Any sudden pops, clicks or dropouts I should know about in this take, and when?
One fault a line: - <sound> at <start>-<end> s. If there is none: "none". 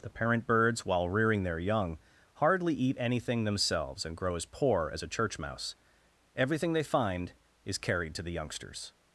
none